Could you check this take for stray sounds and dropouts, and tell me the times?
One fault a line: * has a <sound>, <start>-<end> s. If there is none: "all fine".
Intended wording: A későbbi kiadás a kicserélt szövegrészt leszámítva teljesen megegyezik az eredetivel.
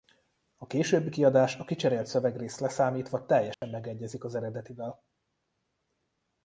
* has a dropout, 3.5-3.6 s